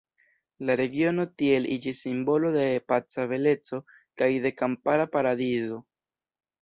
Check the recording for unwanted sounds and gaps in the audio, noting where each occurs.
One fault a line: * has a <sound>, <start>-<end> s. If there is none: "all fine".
all fine